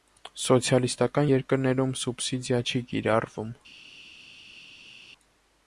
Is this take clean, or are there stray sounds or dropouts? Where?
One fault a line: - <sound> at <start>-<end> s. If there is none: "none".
none